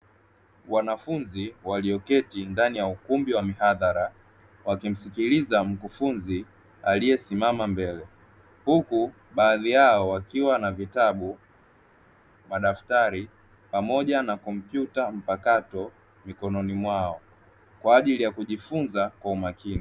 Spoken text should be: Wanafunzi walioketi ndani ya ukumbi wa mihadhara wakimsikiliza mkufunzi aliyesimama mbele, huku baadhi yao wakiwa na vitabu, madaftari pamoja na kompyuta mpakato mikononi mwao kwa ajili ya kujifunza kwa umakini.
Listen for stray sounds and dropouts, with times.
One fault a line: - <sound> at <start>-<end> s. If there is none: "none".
none